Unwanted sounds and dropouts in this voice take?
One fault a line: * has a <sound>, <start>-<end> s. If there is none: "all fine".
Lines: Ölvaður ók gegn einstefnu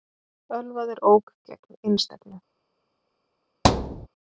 * has a thud, 3.6-4.1 s